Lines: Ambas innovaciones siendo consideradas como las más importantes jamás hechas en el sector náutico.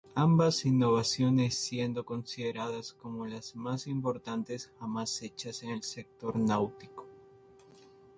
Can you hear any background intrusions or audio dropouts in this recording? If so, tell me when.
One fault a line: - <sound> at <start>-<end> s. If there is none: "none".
none